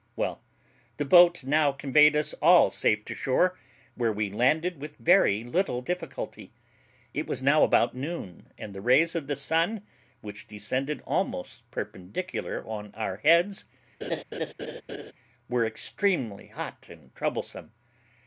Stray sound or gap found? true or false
true